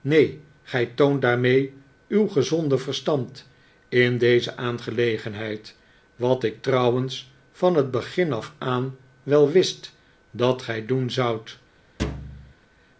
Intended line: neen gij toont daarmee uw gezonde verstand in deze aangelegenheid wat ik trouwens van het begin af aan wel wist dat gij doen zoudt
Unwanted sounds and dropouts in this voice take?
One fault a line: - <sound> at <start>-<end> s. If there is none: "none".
- thud at 12.0-12.5 s